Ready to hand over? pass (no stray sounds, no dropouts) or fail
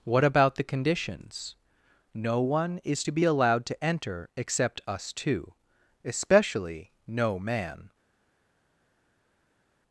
pass